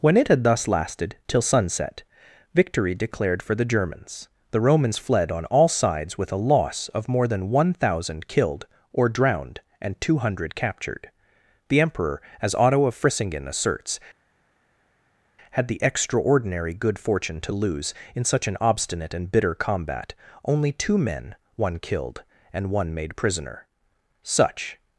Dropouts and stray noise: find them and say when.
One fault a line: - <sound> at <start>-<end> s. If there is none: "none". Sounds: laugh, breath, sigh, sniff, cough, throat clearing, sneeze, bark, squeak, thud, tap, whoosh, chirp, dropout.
none